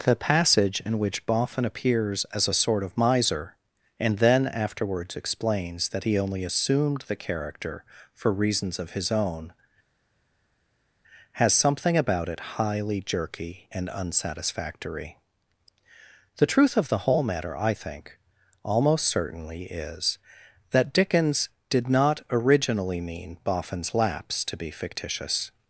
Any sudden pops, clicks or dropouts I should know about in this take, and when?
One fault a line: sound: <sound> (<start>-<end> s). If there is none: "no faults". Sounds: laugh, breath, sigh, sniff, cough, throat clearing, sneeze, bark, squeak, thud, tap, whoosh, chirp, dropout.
no faults